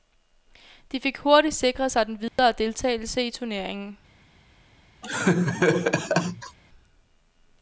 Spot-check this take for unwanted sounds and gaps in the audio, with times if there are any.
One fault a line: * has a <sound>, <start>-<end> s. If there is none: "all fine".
* has a dropout, 2.3-2.4 s
* has a laugh, 5.0-6.6 s